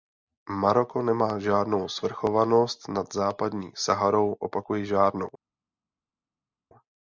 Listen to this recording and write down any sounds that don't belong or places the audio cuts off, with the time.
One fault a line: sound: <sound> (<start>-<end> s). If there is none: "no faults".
no faults